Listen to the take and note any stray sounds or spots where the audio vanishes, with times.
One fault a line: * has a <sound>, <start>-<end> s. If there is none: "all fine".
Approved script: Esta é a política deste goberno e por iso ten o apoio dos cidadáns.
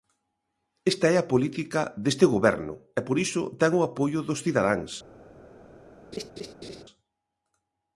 * has a laugh, 6.1-6.8 s